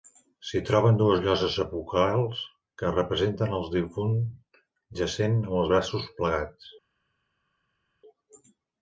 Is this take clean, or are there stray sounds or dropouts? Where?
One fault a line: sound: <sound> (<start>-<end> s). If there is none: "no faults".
no faults